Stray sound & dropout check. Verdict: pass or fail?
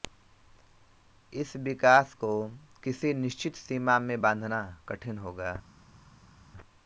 pass